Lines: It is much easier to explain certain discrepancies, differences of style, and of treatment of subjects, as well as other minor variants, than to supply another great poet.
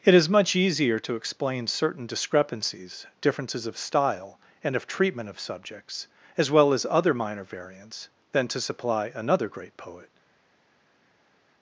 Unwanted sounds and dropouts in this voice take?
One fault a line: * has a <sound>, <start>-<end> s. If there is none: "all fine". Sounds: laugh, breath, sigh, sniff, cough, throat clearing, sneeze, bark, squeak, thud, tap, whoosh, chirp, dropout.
all fine